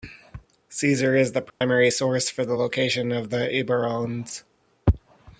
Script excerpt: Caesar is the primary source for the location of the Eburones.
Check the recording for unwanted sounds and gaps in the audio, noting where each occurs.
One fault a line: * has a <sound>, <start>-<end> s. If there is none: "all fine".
* has a dropout, 1.5-1.6 s